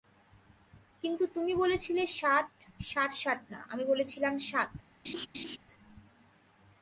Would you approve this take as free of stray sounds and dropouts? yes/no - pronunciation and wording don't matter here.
no